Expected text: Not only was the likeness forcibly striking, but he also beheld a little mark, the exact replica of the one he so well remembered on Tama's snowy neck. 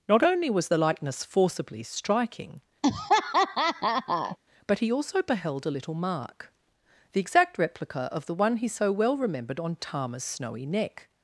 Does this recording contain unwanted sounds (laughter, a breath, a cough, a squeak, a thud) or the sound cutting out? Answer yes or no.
yes